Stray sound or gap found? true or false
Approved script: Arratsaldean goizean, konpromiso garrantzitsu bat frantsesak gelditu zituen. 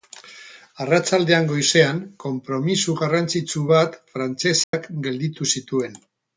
true